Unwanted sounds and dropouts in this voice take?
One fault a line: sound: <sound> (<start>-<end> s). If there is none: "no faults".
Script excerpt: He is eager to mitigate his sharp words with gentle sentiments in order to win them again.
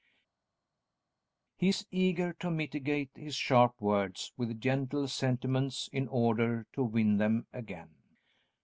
no faults